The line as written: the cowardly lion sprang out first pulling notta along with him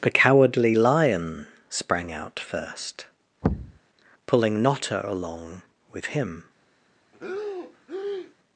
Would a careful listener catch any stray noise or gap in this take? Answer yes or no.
yes